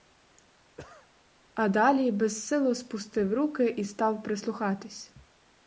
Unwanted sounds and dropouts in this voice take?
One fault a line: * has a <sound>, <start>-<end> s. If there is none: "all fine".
* has a cough, 0.8-1.1 s